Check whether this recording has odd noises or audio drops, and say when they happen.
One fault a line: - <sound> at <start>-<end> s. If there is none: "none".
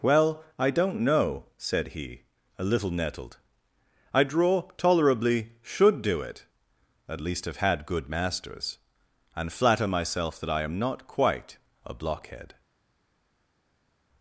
none